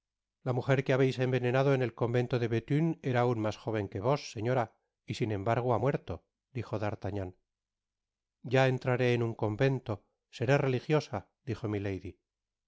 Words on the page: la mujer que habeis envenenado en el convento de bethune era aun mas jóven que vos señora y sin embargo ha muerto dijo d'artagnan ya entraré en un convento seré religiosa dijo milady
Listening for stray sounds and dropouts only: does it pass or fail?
pass